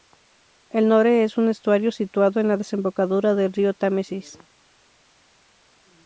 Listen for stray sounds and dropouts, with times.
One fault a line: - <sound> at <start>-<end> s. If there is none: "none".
none